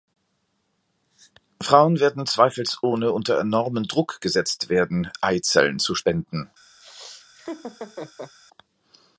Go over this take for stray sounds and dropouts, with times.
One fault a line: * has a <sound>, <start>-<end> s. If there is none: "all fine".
* has a laugh, 6.8-8.3 s